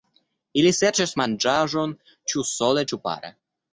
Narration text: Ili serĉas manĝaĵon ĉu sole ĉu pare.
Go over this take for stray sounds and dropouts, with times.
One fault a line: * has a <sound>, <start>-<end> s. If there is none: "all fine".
all fine